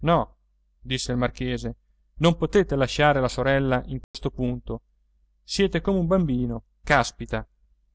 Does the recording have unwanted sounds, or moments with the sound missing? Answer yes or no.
yes